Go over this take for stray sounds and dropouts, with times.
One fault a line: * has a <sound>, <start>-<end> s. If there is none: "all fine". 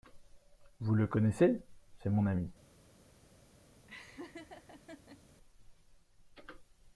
* has a laugh, 3.9-5.2 s